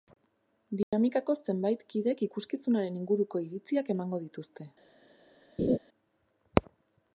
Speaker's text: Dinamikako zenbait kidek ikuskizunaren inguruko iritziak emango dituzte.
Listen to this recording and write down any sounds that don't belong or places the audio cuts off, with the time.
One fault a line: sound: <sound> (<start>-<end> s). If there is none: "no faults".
sound: dropout (0.8-0.9 s)
sound: laugh (5.6-5.8 s)